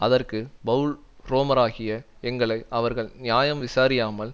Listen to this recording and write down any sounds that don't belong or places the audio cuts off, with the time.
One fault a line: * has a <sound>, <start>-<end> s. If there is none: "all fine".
all fine